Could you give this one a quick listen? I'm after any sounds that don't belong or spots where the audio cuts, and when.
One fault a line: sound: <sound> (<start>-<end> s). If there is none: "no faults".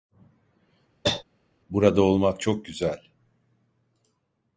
sound: cough (1.0-1.2 s)